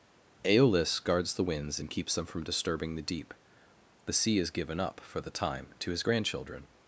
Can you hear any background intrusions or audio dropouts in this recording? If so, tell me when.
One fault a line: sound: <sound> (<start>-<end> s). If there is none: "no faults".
no faults